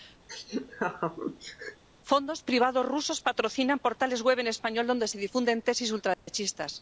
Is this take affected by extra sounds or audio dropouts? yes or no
yes